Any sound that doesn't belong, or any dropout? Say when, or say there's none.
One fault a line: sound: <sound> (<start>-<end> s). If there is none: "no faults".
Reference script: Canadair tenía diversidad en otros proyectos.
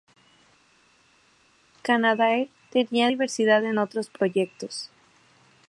no faults